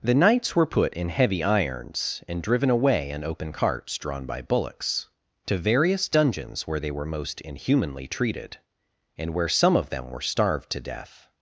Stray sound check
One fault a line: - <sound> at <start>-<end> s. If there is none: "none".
none